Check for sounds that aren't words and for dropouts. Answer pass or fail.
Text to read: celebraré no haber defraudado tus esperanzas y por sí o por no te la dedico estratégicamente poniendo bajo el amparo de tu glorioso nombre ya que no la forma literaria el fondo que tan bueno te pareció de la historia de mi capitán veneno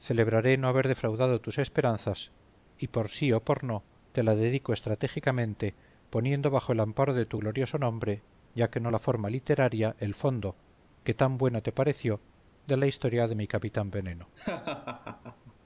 fail